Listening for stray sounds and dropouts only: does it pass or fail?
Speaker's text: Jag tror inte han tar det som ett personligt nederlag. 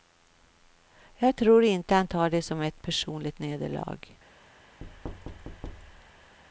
fail